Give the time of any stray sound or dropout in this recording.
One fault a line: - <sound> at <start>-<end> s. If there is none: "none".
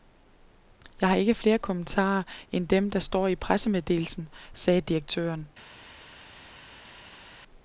none